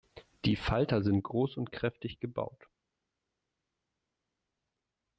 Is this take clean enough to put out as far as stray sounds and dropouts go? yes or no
yes